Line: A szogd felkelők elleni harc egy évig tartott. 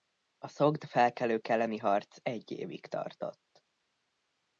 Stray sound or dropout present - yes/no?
no